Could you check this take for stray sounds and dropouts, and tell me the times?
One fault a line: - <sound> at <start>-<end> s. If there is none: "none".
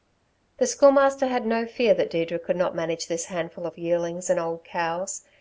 none